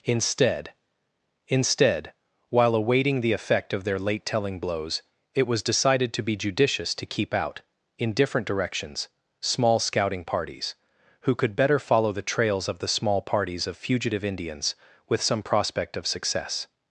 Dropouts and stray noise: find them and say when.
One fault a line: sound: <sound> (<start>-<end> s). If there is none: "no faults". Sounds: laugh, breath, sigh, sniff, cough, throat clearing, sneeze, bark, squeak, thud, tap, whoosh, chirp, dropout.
no faults